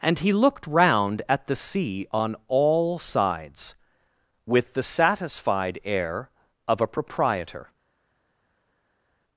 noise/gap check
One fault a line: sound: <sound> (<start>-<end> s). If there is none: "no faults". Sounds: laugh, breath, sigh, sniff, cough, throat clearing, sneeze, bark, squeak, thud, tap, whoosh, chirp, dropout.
no faults